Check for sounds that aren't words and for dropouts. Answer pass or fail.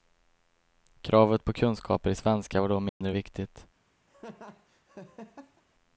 fail